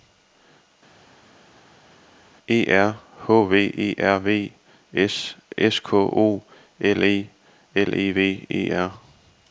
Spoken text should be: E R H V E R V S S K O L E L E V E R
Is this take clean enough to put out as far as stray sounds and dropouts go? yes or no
yes